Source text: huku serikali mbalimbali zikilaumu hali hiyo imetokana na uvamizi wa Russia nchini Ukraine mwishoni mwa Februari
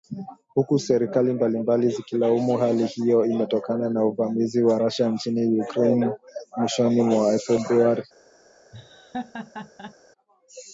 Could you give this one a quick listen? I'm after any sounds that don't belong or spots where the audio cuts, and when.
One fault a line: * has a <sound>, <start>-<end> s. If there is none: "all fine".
* has a laugh, 8.7-9.9 s